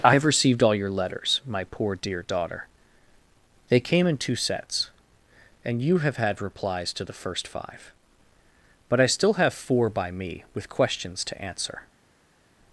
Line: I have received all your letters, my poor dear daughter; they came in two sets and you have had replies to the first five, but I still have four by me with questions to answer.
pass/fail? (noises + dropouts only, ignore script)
pass